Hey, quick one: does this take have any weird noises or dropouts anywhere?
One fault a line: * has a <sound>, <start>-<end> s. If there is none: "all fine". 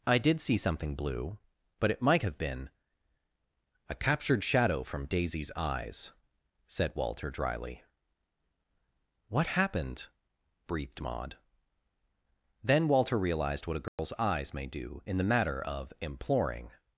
* has a dropout, 13.9-14.0 s